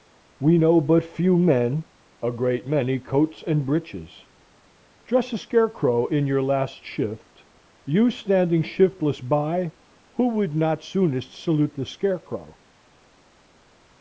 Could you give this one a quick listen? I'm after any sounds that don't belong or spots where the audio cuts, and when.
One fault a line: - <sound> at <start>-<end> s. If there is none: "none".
none